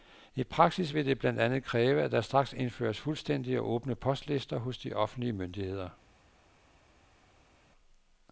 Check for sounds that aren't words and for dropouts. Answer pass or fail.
pass